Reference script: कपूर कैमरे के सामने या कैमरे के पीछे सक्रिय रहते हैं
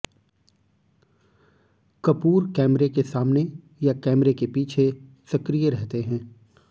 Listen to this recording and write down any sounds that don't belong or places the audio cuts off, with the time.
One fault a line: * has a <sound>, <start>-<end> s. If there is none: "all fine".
all fine